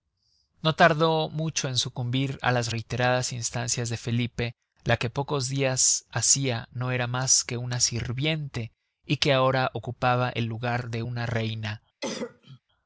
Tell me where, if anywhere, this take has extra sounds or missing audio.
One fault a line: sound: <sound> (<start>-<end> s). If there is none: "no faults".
sound: cough (12.0-12.6 s)